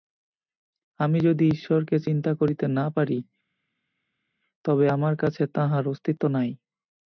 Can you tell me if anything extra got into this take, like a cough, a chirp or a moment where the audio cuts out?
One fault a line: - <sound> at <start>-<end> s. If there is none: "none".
none